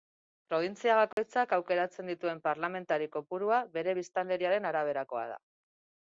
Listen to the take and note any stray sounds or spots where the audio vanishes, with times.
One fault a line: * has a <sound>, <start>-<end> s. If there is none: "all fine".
* has a dropout, 1.1-1.2 s